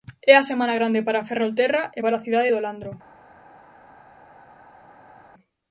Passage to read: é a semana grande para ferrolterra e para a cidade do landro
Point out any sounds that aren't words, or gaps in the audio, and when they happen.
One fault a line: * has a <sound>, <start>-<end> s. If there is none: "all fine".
all fine